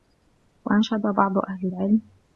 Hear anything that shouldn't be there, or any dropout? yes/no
no